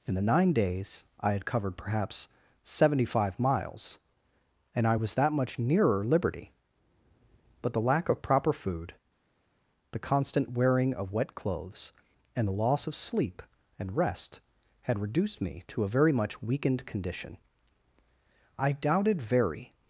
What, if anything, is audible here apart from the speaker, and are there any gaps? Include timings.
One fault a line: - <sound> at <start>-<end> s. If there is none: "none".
none